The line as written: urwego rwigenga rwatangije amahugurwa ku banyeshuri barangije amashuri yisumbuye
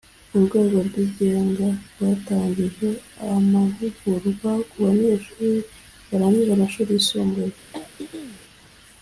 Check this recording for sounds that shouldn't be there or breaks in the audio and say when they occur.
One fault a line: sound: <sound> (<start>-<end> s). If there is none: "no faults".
sound: throat clearing (7.7-8.4 s)